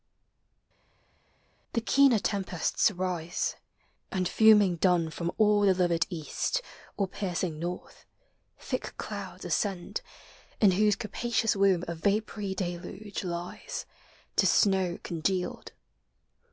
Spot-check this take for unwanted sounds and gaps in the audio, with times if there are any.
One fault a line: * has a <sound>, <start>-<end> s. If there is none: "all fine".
all fine